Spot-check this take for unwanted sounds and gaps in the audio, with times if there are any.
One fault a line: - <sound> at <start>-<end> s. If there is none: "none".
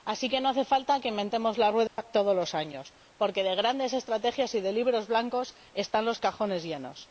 - dropout at 1.9-2.0 s